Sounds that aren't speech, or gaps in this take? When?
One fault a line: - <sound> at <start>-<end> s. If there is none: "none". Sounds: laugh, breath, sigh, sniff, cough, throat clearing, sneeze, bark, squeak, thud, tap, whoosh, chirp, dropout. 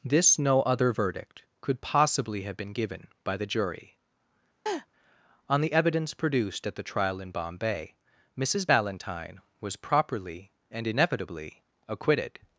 - laugh at 4.7-4.9 s